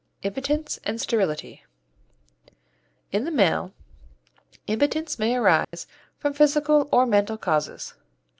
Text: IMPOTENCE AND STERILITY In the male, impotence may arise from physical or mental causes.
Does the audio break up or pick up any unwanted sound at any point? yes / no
yes